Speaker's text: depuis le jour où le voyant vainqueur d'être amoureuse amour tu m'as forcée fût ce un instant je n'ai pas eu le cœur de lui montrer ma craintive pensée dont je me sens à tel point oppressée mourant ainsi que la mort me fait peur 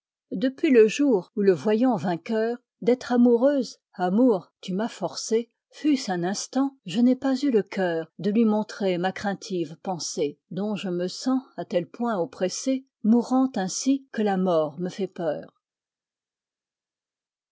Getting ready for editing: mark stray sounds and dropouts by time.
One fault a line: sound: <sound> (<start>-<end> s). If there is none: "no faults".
no faults